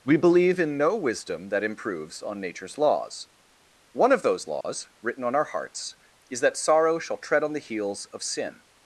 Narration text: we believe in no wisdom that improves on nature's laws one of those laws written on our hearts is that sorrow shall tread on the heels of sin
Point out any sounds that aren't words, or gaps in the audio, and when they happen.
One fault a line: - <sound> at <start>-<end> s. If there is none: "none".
- dropout at 4.6-4.6 s